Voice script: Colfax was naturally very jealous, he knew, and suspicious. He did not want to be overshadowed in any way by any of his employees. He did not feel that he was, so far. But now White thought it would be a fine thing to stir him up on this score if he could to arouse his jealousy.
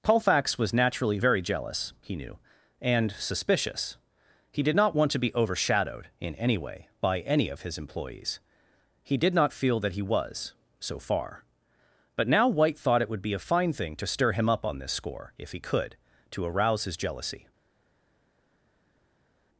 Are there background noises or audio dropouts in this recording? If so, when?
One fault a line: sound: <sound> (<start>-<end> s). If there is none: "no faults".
no faults